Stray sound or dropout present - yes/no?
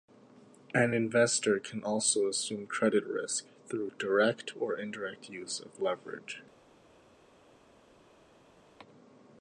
no